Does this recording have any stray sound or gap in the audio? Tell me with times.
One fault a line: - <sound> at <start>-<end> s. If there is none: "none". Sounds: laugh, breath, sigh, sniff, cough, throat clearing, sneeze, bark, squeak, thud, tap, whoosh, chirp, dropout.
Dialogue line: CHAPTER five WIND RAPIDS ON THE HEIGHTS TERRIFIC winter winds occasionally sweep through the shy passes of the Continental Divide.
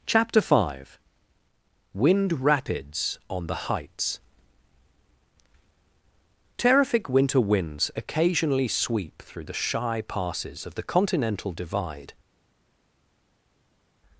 none